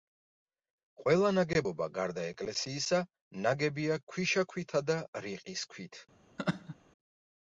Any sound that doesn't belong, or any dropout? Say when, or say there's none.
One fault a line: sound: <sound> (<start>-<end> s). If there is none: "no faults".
sound: laugh (6.4-6.8 s)